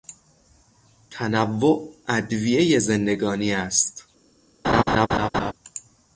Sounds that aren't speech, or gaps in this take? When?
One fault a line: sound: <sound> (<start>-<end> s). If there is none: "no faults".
sound: laugh (4.6-5.5 s)